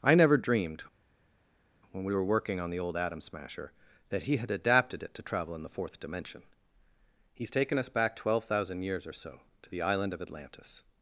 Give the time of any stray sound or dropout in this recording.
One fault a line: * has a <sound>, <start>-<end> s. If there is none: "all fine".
all fine